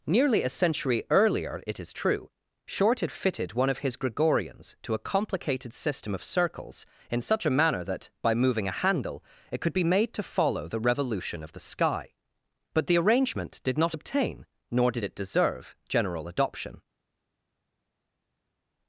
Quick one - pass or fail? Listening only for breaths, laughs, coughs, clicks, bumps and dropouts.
pass